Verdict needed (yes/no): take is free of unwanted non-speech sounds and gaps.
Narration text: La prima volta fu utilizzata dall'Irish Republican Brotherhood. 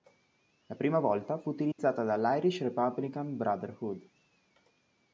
no